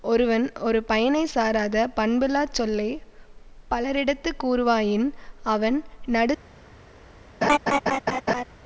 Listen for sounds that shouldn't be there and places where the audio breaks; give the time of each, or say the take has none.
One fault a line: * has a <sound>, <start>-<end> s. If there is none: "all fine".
* has a laugh, 7.4-8.4 s